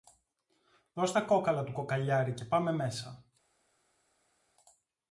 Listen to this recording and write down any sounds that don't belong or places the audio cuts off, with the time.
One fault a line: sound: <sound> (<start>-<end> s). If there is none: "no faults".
no faults